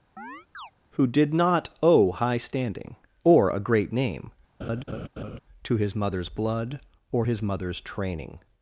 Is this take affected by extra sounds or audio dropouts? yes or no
yes